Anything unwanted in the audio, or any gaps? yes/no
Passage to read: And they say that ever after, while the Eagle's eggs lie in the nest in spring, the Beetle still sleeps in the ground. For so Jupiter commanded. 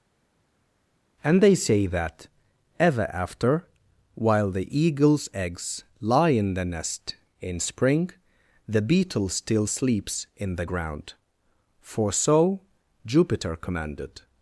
no